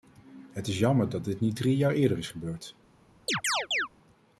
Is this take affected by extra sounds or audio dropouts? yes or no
yes